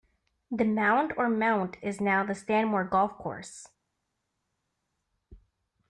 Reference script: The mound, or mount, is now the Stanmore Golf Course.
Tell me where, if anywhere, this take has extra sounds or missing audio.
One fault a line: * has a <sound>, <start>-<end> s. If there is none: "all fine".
all fine